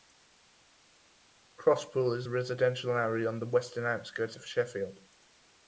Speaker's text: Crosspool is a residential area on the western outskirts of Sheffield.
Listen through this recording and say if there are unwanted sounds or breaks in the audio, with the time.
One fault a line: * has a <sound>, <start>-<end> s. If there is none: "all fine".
all fine